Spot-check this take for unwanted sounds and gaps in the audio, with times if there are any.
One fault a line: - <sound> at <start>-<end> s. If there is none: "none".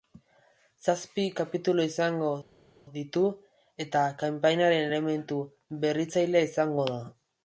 none